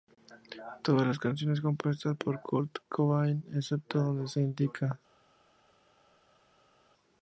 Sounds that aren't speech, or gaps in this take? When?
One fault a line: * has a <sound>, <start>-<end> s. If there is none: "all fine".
all fine